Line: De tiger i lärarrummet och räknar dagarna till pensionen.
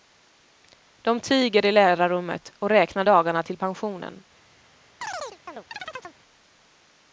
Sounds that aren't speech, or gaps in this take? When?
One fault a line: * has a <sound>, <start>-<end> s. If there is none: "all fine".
* has a chirp, 5.0-6.2 s